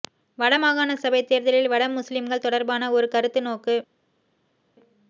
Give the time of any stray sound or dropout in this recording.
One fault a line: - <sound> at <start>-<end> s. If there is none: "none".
none